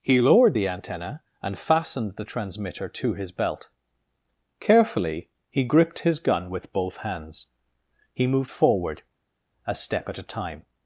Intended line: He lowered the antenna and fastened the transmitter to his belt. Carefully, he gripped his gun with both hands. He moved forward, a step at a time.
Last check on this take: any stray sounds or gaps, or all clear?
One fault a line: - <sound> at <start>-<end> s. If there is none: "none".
none